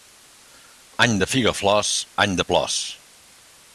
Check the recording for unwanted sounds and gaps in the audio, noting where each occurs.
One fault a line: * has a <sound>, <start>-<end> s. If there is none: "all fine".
all fine